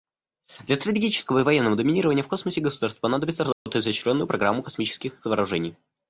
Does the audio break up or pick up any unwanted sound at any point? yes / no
yes